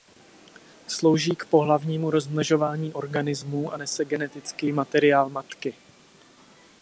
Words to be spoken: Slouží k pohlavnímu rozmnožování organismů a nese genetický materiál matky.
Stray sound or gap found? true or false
false